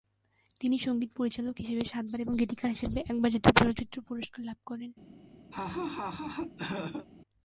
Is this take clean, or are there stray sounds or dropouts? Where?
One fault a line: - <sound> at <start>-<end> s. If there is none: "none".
- laugh at 5.5-7.1 s